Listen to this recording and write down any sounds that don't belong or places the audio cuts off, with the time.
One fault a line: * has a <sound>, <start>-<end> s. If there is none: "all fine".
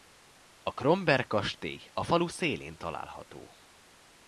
all fine